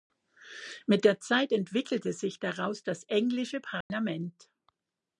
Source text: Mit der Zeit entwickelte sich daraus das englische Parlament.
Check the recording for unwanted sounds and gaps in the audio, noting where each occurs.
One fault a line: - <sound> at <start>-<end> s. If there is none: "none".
- dropout at 3.8-3.9 s